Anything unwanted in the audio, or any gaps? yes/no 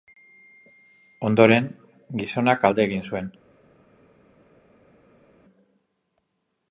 no